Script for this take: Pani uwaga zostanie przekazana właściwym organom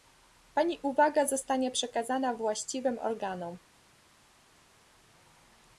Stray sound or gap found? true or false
false